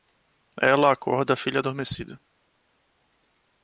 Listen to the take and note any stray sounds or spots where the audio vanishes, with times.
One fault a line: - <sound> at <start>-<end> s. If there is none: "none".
none